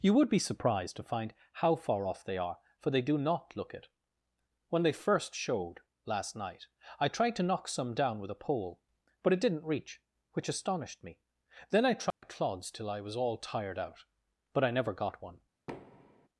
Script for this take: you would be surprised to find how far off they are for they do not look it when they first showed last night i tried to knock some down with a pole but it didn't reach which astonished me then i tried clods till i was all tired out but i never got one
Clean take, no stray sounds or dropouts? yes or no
no